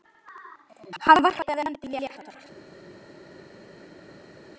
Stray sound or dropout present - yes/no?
no